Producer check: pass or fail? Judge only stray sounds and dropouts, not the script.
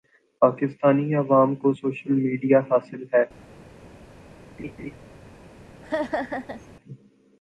fail